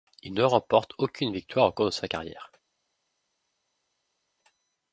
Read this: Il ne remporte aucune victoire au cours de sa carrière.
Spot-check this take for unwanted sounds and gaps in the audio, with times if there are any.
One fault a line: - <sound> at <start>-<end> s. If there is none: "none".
none